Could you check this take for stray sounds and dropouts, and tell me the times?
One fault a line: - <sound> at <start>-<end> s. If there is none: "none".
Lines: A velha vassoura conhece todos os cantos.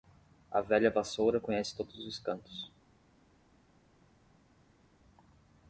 none